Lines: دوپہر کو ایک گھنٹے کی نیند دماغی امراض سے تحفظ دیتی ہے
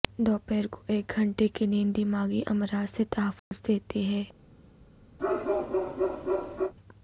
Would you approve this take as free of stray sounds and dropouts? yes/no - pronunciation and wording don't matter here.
no